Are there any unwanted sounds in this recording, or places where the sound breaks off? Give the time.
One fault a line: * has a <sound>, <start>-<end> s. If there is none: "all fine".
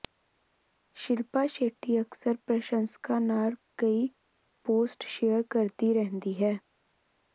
all fine